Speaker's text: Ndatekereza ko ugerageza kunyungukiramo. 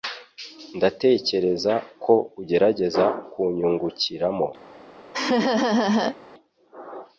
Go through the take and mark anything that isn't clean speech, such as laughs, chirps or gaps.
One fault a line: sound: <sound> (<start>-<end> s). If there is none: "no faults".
sound: laugh (5.1-6.2 s)